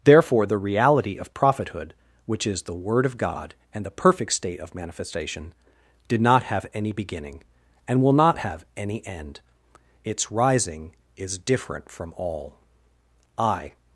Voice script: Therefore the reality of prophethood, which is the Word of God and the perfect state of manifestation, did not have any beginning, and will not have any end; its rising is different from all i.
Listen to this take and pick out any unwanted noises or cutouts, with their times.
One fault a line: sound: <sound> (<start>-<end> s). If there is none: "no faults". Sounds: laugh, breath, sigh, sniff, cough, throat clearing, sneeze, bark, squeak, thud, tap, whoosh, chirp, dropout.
no faults